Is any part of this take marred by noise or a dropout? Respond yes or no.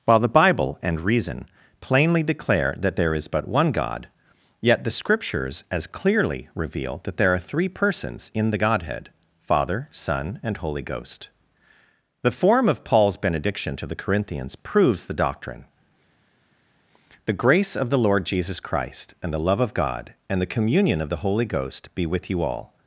no